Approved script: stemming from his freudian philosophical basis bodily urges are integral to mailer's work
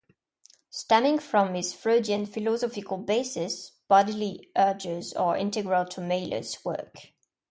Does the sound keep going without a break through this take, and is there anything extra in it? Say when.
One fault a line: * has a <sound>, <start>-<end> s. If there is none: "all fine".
all fine